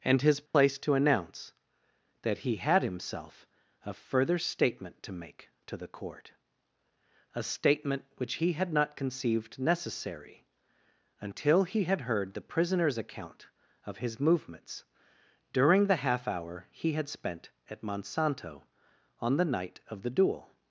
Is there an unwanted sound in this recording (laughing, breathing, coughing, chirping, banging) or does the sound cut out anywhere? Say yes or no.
yes